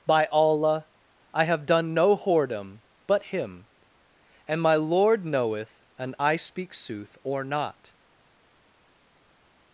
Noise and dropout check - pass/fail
pass